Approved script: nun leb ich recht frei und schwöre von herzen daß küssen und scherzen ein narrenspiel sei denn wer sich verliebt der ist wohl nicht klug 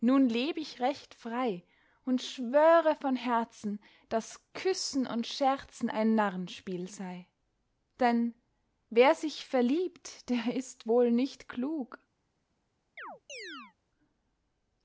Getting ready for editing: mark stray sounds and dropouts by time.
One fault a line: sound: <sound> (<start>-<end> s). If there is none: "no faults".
sound: chirp (13.0-13.7 s)